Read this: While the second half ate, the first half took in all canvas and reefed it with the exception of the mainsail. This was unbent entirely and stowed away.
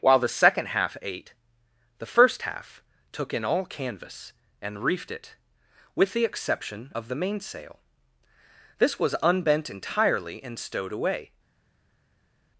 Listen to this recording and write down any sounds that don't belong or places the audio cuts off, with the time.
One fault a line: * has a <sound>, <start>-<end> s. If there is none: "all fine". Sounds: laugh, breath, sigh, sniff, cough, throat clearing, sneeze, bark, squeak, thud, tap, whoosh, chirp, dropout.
all fine